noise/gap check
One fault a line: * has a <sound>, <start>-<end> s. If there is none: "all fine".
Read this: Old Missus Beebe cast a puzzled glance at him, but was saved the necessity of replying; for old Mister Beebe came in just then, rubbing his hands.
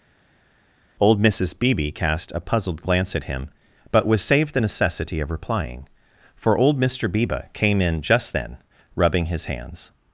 all fine